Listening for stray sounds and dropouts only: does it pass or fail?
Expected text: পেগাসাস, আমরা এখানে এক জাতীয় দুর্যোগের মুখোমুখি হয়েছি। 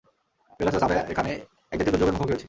pass